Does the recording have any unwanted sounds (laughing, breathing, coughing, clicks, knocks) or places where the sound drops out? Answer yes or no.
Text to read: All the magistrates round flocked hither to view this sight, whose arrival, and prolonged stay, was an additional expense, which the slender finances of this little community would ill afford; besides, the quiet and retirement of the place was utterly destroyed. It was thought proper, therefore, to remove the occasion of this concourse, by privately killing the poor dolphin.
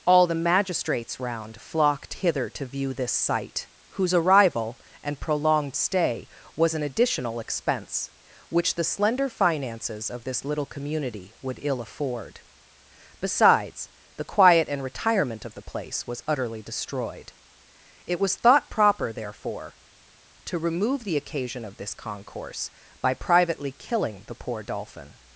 no